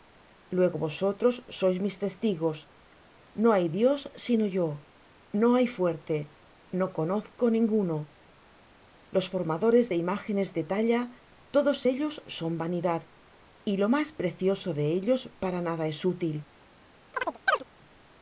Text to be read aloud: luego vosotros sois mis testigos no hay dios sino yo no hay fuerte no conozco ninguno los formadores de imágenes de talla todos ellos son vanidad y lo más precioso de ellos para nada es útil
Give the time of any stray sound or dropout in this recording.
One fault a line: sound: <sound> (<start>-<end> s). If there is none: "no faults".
sound: chirp (17.1-17.6 s)